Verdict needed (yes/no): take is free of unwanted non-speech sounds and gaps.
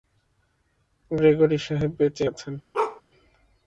no